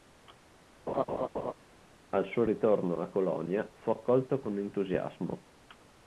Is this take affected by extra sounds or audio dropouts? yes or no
yes